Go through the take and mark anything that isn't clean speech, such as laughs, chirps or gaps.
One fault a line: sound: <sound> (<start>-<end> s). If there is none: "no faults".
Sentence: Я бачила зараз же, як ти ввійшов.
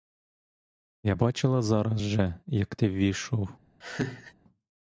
sound: laugh (3.8-4.3 s)